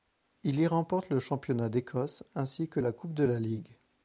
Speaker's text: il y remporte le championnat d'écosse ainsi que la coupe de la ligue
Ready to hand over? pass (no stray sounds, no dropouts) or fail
pass